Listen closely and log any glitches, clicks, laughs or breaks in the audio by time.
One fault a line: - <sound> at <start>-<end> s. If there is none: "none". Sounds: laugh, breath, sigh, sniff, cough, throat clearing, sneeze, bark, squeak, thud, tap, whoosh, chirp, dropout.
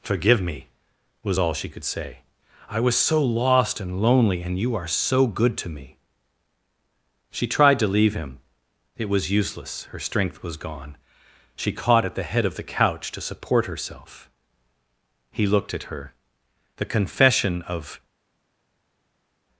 none